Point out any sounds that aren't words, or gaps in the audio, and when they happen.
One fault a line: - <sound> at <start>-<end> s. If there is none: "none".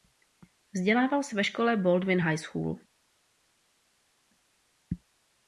none